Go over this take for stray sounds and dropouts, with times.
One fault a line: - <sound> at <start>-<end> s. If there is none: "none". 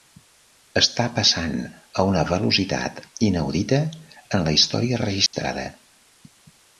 - dropout at 5.3-5.3 s